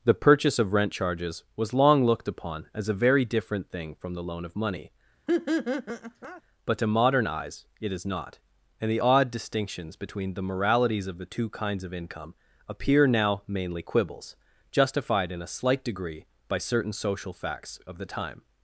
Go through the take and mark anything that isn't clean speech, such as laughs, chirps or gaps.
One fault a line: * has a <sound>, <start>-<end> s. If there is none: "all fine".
* has a laugh, 5.3-6.4 s